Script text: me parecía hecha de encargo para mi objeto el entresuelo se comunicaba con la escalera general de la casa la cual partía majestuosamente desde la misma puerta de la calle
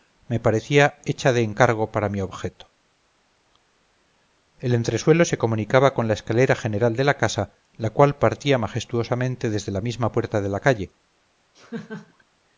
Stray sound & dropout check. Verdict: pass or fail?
fail